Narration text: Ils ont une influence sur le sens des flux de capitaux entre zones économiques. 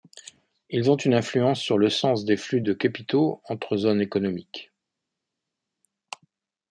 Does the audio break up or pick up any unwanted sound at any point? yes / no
no